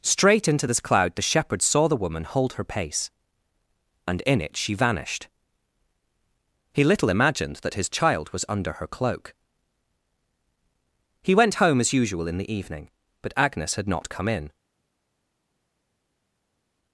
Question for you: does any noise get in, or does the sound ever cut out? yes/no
no